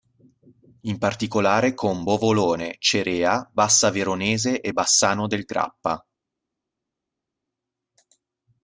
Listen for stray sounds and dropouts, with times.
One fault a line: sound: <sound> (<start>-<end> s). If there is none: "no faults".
no faults